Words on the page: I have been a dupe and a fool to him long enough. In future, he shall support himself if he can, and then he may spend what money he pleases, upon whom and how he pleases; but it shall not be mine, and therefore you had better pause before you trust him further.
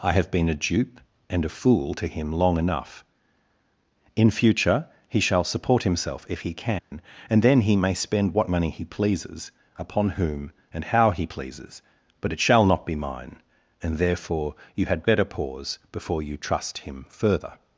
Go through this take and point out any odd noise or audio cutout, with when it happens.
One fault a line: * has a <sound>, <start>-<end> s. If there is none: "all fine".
* has a dropout, 6.8-6.9 s